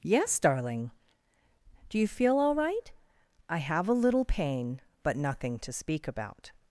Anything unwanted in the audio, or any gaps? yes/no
no